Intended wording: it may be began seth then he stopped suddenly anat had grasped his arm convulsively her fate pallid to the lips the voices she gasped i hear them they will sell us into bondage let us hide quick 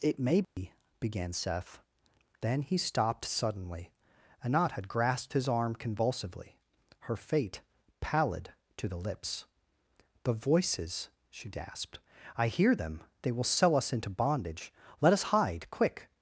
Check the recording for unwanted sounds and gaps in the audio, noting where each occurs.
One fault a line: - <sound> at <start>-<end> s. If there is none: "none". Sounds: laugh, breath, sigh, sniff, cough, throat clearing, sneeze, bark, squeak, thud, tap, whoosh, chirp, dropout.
- dropout at 0.4-0.6 s